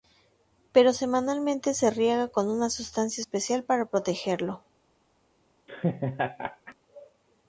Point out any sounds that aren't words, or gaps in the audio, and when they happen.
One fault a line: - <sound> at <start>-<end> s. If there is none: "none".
- laugh at 5.7-6.7 s